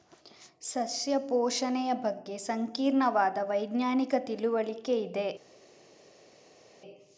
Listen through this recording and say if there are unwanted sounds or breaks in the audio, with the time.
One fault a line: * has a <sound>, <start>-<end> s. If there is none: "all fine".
all fine